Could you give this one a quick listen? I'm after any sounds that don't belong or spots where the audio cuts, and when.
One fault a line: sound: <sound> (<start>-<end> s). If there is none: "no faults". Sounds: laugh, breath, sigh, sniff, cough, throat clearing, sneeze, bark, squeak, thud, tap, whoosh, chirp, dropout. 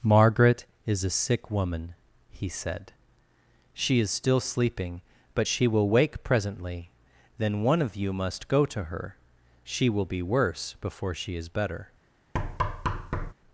sound: thud (12.3-13.3 s)